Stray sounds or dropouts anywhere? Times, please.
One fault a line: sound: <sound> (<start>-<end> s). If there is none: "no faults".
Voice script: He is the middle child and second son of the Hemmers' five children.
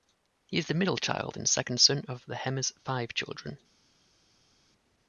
no faults